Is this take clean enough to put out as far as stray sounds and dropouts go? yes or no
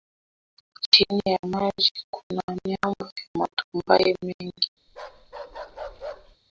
no